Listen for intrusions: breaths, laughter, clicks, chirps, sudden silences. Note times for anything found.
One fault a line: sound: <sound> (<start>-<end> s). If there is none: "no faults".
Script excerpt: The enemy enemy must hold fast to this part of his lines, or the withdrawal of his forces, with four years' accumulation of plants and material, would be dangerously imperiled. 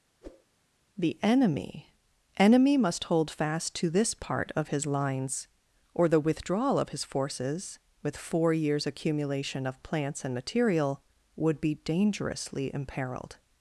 sound: whoosh (0.2-0.5 s)